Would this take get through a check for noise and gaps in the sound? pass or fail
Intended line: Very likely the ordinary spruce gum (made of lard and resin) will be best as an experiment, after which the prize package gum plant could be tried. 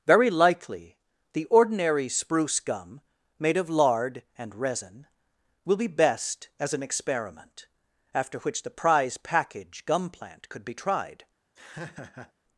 fail